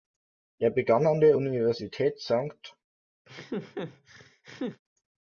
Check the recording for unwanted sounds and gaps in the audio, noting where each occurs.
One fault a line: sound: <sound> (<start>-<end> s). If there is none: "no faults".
sound: laugh (3.2-4.8 s)